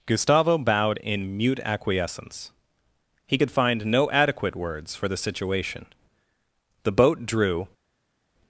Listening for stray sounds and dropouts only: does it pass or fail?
pass